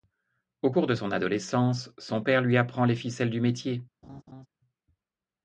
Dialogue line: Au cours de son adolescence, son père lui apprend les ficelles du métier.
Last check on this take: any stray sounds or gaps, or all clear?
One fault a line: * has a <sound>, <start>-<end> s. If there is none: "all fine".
* has a laugh, 4.0-4.5 s